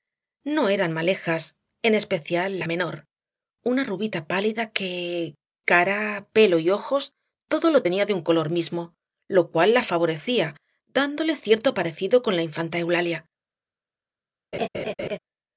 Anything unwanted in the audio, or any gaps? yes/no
yes